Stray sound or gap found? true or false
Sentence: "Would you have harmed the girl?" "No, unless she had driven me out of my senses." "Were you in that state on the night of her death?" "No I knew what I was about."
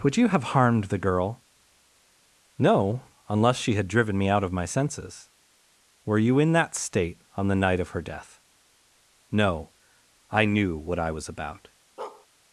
true